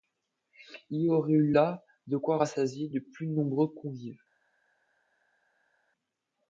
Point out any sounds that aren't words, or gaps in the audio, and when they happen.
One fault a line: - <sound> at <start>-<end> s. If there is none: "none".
none